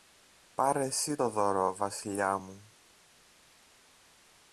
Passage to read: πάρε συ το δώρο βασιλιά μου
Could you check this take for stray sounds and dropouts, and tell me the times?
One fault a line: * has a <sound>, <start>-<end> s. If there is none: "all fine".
all fine